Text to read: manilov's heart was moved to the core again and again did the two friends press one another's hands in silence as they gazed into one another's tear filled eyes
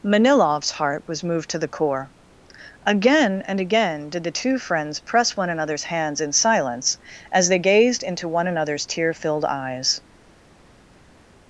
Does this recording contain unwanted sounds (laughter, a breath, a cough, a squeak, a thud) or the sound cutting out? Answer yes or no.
no